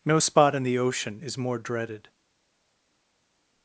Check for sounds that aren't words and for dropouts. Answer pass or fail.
pass